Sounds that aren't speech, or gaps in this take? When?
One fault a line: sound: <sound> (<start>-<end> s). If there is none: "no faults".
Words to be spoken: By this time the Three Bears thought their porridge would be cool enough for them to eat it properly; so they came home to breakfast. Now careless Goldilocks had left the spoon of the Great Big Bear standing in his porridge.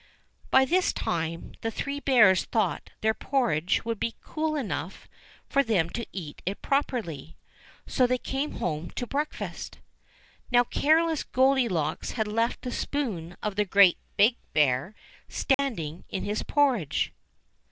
sound: dropout (15.5-15.6 s)